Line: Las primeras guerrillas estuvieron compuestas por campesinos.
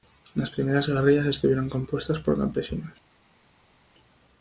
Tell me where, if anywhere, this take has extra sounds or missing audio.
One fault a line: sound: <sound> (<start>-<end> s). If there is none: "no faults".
no faults